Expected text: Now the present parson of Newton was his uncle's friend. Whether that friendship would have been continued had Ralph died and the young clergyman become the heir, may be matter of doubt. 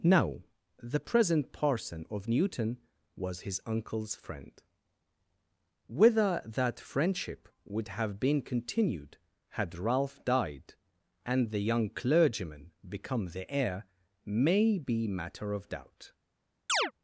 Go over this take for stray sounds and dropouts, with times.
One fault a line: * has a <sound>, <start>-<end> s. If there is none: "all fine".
* has a chirp, 16.7-16.9 s